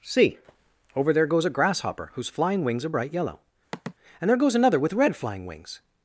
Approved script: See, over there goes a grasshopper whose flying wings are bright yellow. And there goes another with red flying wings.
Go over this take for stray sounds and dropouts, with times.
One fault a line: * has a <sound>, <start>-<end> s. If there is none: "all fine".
* has a sigh, 3.7-3.9 s